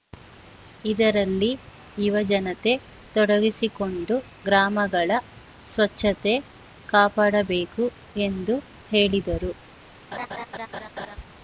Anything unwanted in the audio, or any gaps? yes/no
yes